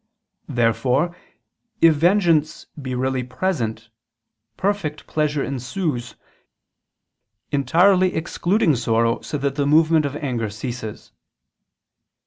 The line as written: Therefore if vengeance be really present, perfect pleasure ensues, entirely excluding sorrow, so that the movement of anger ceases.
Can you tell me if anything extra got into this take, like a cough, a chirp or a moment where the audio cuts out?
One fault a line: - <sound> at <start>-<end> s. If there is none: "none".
none